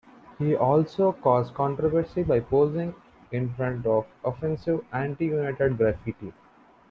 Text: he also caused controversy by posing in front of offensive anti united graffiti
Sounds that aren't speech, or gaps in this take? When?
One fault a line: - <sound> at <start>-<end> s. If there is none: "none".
none